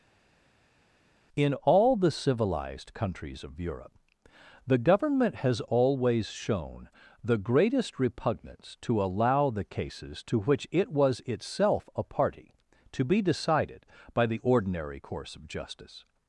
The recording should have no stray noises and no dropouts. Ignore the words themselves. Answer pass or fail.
pass